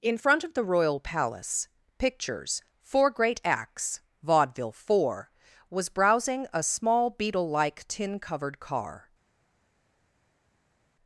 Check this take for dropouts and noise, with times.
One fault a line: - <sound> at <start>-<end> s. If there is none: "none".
none